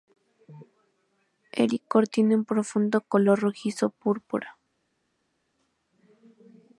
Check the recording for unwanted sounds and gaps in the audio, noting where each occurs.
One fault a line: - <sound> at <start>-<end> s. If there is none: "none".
none